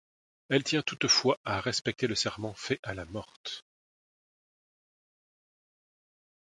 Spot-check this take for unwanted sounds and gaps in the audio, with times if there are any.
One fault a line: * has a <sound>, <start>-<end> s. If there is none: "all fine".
all fine